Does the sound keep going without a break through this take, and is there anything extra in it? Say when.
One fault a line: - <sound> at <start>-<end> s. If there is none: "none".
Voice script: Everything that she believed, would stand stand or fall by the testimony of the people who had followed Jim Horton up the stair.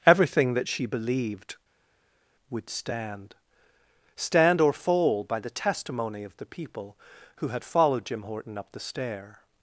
none